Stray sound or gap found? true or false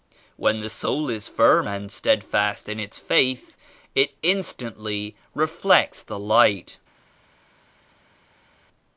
false